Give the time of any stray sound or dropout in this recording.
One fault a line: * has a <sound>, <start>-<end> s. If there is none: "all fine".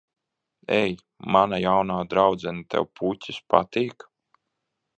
all fine